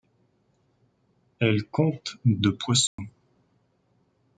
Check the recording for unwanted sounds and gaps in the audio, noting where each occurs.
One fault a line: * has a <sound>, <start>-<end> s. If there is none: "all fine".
* has a dropout, 2.9-3.0 s